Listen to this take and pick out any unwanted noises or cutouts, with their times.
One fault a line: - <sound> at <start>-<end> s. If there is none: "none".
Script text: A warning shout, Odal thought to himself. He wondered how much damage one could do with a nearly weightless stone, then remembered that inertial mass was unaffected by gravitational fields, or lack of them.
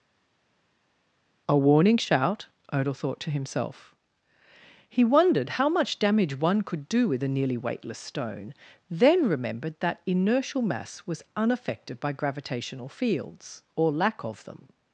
none